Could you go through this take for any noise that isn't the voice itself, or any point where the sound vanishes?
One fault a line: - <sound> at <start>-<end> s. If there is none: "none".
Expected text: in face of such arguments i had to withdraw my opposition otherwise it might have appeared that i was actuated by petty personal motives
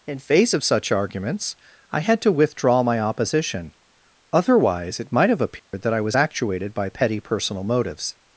- dropout at 5.6-5.7 s